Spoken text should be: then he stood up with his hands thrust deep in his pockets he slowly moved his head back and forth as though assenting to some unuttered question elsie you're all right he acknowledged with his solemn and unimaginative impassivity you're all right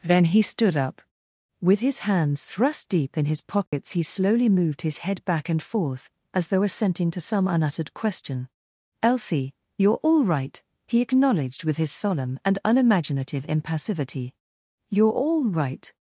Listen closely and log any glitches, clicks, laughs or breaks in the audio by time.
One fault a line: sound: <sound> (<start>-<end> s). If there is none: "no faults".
sound: dropout (3.7-3.7 s)